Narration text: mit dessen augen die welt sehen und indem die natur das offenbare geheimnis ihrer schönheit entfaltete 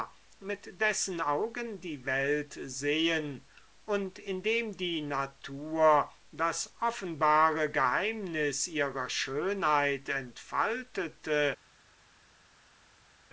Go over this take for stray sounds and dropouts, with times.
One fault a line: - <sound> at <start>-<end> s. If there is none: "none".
none